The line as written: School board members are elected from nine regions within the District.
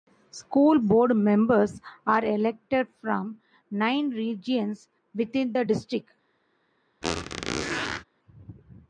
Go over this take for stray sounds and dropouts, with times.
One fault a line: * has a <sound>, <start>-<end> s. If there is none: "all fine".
* has a squeak, 7.0-8.0 s